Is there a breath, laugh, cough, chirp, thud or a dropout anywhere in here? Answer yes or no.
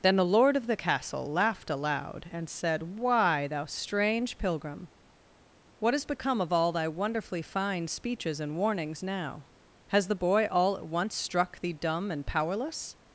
no